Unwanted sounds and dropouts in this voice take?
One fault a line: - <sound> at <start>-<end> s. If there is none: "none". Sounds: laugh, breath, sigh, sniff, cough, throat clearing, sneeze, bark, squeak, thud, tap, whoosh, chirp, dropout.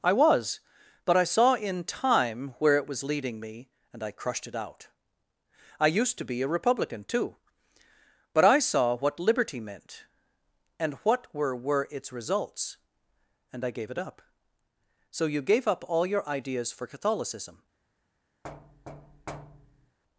- thud at 18.4-20.0 s